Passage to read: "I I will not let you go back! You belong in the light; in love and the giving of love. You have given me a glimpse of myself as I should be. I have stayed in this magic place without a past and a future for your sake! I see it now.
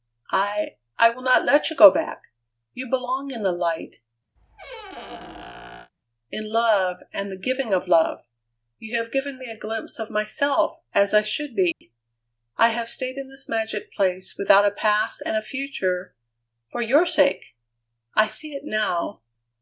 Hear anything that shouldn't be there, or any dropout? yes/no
yes